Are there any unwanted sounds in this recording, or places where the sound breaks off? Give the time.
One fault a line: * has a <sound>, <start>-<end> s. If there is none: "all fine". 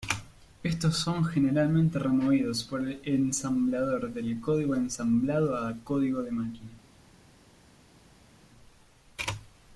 all fine